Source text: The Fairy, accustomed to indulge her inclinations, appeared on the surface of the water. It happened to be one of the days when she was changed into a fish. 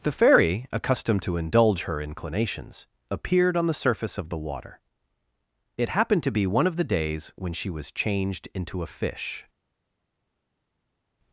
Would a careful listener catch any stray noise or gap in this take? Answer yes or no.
no